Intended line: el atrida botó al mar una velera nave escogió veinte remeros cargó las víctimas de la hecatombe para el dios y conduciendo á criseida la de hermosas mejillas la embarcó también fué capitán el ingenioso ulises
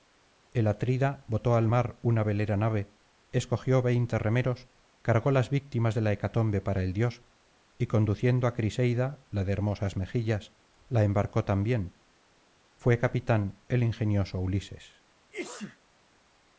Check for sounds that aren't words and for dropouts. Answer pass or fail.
fail